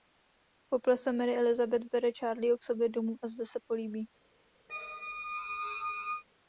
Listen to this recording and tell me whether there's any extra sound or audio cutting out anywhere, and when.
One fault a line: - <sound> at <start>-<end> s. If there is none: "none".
- squeak at 4.7-6.2 s